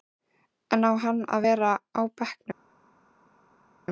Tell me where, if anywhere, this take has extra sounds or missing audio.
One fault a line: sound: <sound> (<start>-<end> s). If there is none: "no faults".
no faults